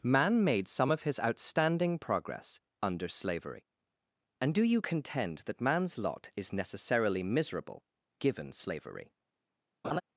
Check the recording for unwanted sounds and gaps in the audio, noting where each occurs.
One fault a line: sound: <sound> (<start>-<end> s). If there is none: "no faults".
sound: laugh (9.8-10.0 s)